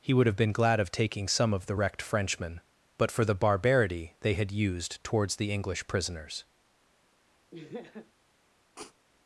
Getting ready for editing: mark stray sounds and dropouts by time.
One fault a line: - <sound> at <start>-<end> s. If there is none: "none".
- laugh at 7.5-8.1 s
- sniff at 8.8-8.9 s